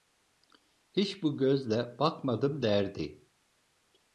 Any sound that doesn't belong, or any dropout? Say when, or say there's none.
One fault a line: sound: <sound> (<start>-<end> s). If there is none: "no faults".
no faults